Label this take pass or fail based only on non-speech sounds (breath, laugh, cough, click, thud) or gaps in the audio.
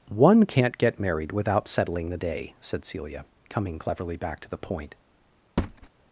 fail